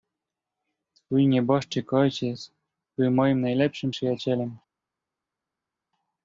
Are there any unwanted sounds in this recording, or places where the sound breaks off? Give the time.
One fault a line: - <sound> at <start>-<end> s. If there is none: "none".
none